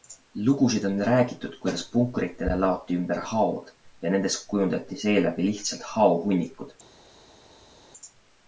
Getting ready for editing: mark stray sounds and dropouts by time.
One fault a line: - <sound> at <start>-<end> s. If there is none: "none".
none